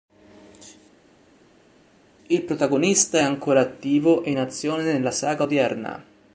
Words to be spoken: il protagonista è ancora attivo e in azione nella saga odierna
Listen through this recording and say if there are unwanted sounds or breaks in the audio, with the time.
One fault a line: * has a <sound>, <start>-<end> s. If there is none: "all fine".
all fine